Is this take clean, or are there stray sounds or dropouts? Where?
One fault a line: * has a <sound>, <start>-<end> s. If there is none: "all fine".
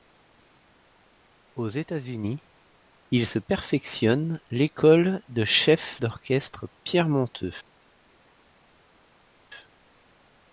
all fine